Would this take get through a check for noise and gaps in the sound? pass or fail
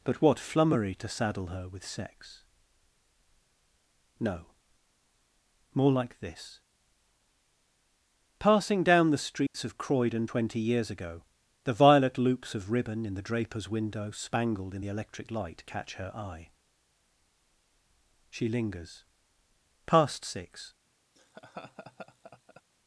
fail